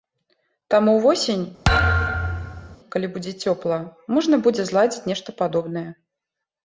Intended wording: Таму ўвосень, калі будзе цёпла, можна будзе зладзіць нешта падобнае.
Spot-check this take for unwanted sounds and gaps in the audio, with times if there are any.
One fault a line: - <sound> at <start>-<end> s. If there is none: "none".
- thud at 1.6-2.8 s